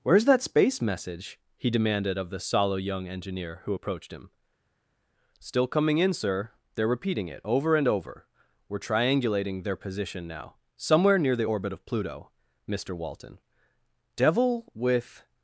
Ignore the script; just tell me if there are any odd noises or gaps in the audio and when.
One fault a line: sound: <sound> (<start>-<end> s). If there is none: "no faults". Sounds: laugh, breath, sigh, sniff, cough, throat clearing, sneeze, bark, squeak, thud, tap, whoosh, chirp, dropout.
no faults